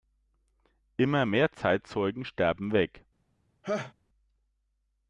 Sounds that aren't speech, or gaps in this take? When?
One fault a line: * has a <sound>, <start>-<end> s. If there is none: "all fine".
* has a laugh, 3.6-3.9 s